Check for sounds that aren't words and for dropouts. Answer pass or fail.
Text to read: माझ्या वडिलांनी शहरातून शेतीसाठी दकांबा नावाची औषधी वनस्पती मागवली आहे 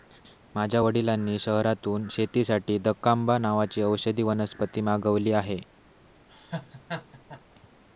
fail